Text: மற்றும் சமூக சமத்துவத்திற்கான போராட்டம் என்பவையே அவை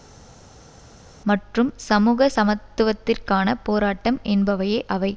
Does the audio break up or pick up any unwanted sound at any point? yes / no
no